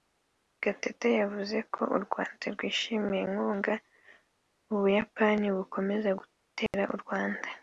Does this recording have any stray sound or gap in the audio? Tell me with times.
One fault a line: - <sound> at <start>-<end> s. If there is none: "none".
- dropout at 6.7-6.7 s